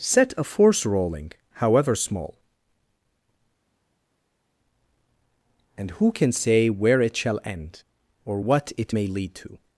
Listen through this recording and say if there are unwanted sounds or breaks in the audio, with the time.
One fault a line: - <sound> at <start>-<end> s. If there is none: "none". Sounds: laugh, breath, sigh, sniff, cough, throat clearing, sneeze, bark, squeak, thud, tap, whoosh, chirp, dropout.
none